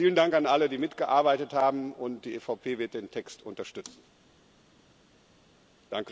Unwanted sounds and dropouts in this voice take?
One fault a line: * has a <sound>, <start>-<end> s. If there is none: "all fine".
all fine